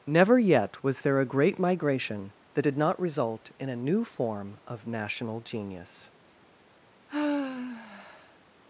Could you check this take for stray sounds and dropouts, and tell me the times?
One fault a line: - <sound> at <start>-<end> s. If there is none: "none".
- sigh at 7.1-8.4 s